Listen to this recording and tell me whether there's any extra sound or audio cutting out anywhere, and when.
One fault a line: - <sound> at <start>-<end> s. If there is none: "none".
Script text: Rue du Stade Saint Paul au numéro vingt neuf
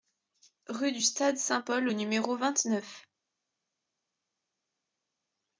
none